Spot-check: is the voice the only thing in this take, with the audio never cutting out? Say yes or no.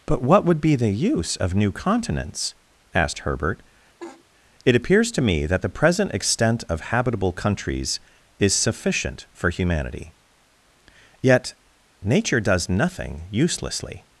no